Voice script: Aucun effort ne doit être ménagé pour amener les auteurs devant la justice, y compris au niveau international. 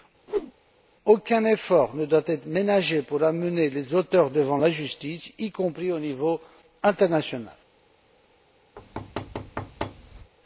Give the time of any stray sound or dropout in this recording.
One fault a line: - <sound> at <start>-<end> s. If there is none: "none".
- whoosh at 0.3-0.5 s
- thud at 8.8-10.3 s